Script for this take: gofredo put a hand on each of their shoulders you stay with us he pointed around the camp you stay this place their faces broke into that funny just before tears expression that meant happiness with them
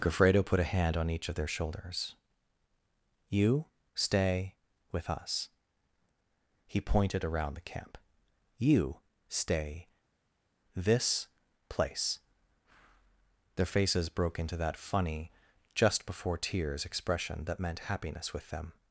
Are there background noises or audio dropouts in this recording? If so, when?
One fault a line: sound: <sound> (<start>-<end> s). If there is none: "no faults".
no faults